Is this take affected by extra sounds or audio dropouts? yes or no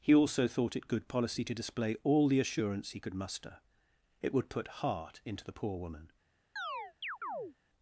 yes